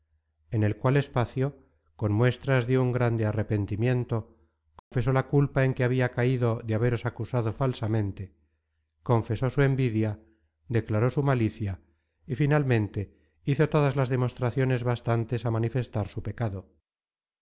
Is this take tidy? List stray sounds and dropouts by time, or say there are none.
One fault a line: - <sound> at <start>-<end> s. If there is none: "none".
- dropout at 4.8-4.9 s